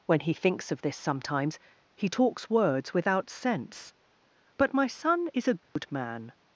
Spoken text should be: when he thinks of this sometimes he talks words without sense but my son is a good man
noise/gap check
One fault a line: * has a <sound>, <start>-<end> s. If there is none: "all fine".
* has a dropout, 5.6-5.8 s